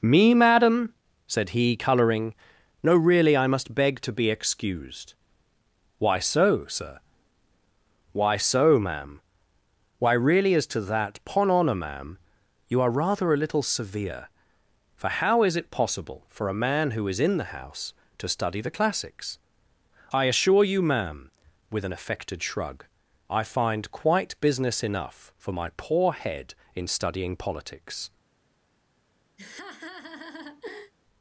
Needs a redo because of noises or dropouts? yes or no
yes